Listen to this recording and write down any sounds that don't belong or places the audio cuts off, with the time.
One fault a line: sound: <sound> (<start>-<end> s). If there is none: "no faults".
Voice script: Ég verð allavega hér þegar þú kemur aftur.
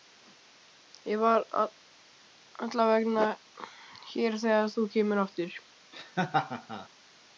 sound: laugh (5.9-6.9 s)